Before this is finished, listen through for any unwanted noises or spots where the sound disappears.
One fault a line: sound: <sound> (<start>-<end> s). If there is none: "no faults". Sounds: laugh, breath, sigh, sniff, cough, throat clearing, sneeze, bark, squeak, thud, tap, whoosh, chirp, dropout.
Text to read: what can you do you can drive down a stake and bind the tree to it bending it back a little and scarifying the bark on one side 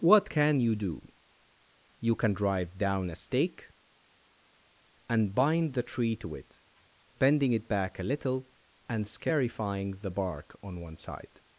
no faults